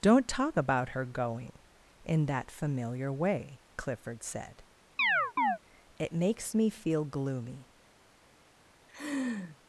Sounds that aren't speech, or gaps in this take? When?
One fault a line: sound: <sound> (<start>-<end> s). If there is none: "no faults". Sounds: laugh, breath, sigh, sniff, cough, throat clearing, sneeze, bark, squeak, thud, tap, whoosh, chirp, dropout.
sound: chirp (5.0-5.6 s)
sound: laugh (8.9-9.6 s)